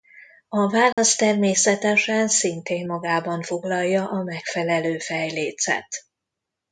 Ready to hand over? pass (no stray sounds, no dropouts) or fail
fail